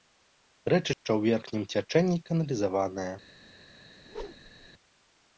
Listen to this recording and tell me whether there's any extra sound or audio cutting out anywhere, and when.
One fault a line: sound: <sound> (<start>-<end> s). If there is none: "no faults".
sound: dropout (0.9-1.1 s)
sound: whoosh (4.0-4.7 s)